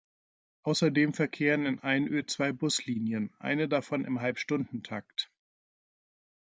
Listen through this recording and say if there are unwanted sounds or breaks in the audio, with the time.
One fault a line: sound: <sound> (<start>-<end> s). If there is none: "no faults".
no faults